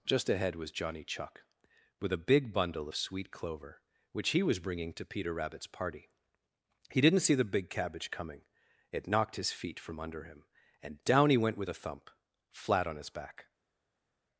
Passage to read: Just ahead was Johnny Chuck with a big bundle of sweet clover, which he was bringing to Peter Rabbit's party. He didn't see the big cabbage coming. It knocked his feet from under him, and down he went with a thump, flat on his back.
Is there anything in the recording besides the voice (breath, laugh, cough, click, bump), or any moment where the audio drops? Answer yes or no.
no